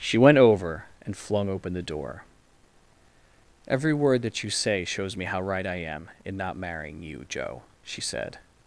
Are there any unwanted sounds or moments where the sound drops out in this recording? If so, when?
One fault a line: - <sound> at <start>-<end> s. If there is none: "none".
none